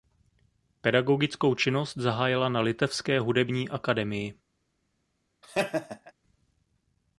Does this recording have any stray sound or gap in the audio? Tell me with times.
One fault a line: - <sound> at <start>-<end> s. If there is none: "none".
- laugh at 5.4-6.1 s